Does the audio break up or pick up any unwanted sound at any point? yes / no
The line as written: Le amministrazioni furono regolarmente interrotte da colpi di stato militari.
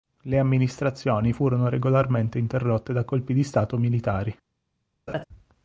yes